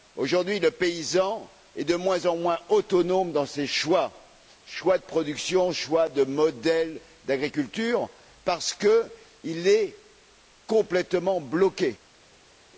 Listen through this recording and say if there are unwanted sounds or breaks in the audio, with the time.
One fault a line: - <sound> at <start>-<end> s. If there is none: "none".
none